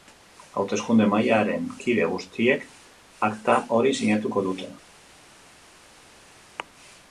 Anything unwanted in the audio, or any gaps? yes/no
no